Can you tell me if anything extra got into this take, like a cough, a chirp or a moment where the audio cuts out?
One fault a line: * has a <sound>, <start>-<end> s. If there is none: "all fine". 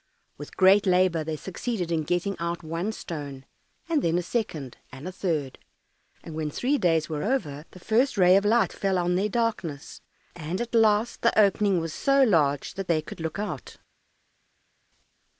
all fine